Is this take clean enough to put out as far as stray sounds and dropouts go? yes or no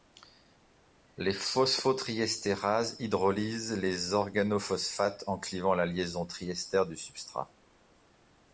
yes